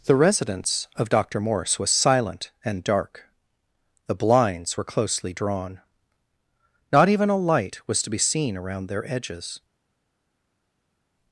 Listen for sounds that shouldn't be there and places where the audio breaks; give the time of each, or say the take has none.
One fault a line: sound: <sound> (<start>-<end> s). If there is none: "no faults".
no faults